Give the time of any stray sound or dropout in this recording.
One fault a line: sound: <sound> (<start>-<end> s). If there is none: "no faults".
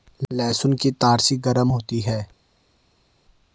no faults